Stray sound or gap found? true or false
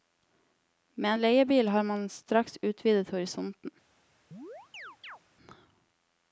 true